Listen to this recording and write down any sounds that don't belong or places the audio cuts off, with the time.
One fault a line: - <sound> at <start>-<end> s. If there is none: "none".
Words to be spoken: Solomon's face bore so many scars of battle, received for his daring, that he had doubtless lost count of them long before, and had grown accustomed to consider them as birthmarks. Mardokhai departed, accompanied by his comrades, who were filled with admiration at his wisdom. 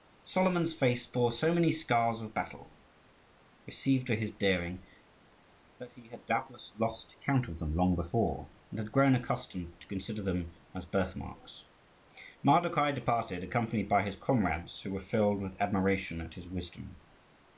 none